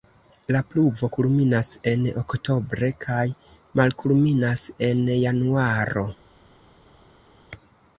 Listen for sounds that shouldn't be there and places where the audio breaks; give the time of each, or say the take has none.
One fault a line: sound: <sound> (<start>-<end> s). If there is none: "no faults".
no faults